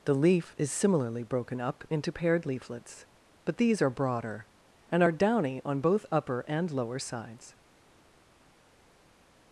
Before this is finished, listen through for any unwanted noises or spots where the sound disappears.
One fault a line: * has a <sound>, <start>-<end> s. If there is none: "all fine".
all fine